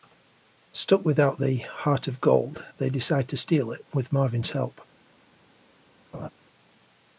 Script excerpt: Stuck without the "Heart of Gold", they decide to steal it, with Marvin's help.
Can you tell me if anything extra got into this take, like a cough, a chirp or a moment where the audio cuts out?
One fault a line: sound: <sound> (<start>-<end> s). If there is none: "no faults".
sound: laugh (6.1-6.3 s)